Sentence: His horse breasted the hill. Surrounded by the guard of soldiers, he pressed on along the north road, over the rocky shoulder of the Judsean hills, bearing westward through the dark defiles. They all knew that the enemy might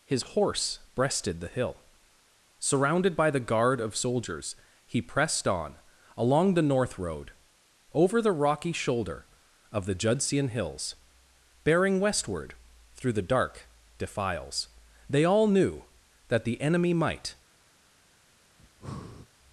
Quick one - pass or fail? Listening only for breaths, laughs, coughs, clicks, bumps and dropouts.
fail